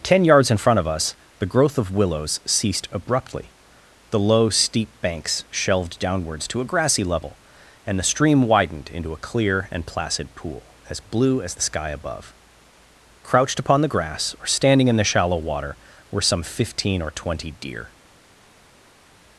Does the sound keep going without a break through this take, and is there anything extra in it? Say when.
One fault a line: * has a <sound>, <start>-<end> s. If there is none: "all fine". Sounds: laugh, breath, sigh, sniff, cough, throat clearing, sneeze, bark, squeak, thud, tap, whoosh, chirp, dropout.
all fine